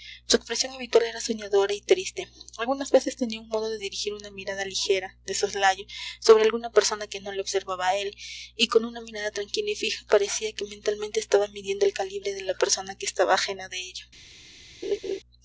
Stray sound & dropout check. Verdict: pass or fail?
fail